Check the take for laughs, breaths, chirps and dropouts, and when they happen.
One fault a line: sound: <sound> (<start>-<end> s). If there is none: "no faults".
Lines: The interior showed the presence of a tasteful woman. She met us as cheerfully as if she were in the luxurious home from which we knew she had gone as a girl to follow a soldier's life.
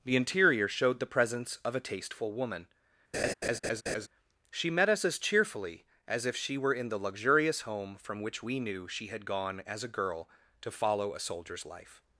sound: laugh (3.1-4.1 s)